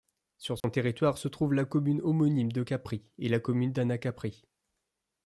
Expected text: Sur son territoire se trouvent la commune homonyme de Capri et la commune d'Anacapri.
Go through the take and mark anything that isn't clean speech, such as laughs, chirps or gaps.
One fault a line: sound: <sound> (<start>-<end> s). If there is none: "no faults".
sound: dropout (0.6-0.6 s)